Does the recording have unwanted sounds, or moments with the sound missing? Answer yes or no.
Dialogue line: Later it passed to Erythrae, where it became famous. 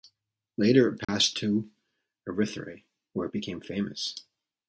yes